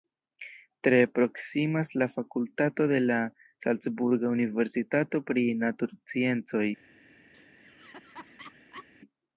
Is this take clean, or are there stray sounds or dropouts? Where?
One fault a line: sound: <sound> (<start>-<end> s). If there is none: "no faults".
sound: laugh (7.3-8.9 s)